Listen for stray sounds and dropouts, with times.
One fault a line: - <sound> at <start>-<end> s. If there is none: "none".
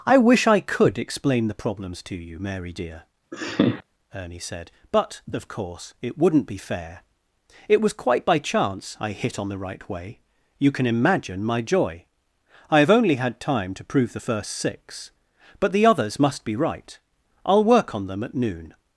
- laugh at 3.3-3.8 s